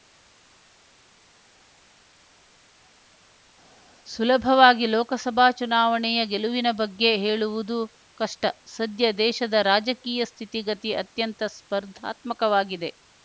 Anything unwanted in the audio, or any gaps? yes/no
no